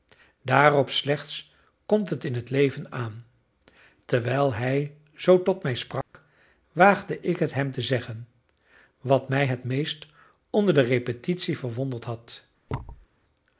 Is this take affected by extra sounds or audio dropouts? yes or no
yes